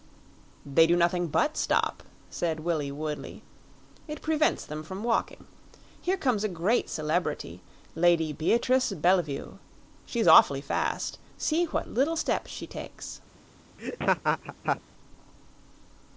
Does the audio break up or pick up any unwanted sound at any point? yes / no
yes